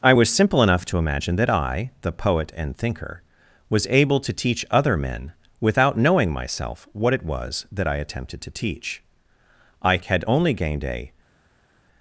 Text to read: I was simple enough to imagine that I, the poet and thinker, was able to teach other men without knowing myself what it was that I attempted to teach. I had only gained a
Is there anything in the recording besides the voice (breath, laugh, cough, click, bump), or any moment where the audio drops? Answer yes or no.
no